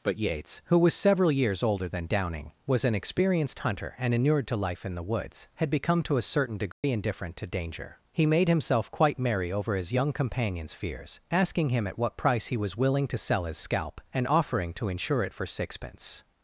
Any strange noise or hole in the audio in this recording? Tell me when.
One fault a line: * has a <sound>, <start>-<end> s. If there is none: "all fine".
* has a dropout, 6.7-6.8 s